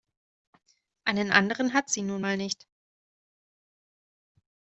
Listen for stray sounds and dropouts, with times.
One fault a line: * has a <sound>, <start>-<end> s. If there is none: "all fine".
all fine